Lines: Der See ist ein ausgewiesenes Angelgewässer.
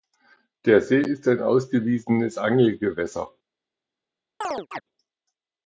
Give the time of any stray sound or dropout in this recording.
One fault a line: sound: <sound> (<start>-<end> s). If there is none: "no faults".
sound: chirp (4.4-4.8 s)